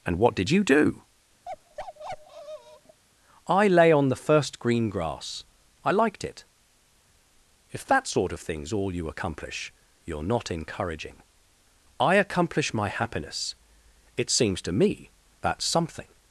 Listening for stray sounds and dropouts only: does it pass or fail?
fail